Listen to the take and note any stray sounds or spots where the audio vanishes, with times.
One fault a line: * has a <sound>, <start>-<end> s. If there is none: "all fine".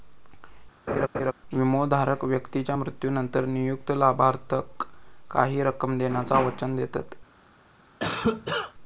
* has a laugh, 0.9-1.3 s
* has a cough, 8.0-8.7 s